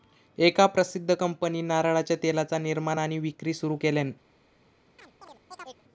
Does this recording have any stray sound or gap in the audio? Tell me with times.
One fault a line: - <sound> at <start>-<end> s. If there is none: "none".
- chirp at 5.0-5.8 s